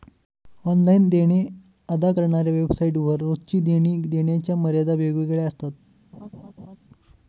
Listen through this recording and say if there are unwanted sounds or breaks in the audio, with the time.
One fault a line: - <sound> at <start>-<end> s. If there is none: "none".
- laugh at 6.1-6.8 s